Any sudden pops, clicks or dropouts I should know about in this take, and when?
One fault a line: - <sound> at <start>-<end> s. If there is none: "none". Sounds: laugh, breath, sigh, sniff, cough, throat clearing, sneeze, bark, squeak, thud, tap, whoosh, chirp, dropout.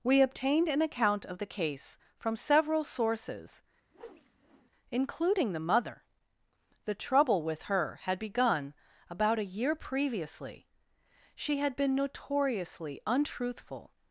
- whoosh at 3.9-4.7 s